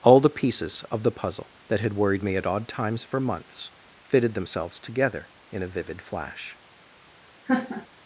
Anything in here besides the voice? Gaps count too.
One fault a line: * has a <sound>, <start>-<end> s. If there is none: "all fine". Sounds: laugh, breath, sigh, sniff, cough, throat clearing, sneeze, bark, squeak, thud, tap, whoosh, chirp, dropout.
* has a laugh, 7.5-7.9 s